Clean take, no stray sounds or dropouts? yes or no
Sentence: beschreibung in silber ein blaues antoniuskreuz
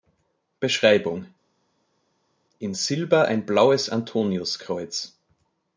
yes